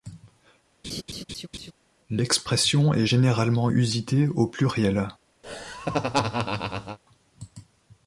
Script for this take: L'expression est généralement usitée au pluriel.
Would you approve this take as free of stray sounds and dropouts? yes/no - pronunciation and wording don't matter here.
no